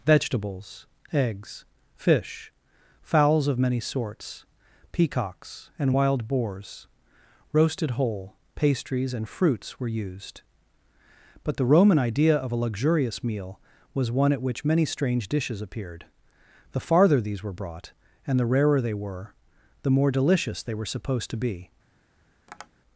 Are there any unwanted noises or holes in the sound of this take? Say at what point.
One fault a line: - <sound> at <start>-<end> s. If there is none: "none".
- tap at 22.5-22.7 s